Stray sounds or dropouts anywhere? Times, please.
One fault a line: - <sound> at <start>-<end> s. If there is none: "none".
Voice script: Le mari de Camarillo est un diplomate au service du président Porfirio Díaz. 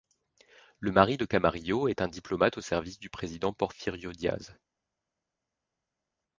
none